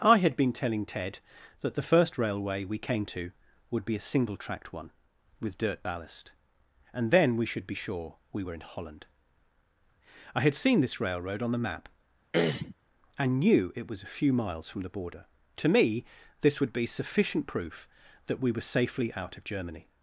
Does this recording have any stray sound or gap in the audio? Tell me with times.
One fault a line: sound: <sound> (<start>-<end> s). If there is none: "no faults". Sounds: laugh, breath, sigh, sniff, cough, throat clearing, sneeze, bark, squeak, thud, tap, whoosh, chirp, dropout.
sound: throat clearing (12.3-12.8 s)